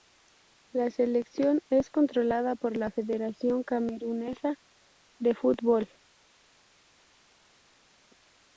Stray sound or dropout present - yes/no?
no